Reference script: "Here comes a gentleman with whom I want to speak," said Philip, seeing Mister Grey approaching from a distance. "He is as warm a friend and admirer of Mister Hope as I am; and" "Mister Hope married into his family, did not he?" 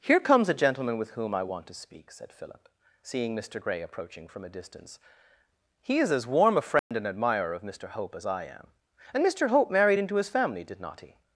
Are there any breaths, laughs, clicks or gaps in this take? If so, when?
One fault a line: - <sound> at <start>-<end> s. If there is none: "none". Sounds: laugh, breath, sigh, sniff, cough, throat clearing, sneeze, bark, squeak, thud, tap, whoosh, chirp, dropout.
- dropout at 6.8-6.9 s